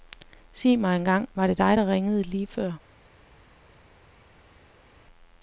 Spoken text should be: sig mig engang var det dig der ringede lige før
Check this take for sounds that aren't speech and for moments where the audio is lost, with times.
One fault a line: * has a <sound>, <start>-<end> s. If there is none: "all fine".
all fine